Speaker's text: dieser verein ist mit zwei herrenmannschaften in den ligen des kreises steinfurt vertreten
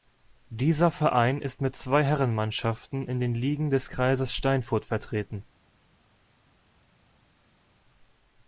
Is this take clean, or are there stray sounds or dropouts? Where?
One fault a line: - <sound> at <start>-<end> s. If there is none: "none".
none